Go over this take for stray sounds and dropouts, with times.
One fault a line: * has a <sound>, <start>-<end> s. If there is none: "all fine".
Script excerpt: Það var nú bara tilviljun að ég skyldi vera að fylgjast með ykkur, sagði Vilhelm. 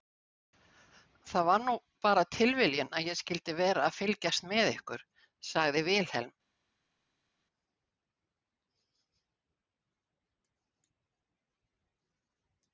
all fine